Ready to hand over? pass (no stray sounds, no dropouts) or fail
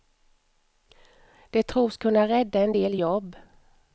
pass